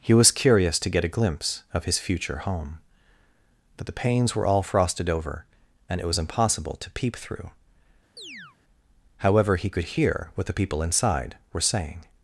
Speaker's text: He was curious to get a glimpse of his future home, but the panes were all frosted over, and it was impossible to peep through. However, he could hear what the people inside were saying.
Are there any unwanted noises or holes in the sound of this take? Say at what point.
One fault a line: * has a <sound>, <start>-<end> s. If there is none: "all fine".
* has a chirp, 8.2-8.6 s